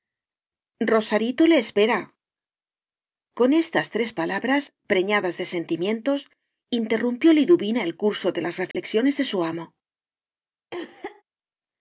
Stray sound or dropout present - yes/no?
yes